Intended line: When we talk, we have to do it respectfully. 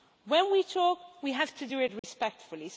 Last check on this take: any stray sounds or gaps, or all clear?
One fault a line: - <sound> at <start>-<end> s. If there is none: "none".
- dropout at 2.0-2.0 s